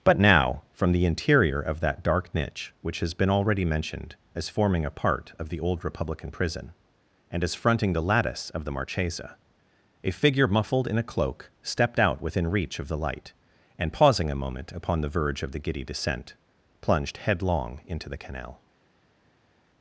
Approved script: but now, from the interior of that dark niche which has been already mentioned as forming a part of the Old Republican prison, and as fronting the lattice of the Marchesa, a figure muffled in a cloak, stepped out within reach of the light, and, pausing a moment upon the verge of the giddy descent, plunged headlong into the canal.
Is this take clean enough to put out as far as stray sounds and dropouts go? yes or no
yes